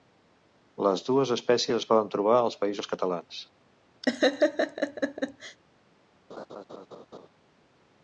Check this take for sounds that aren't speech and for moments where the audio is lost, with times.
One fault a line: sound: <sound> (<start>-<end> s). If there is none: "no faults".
sound: laugh (4.0-5.6 s)
sound: laugh (6.3-7.3 s)